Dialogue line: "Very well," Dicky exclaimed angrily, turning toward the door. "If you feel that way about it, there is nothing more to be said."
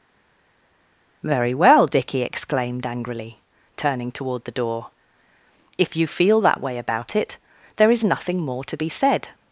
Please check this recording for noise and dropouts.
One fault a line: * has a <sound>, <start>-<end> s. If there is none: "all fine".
all fine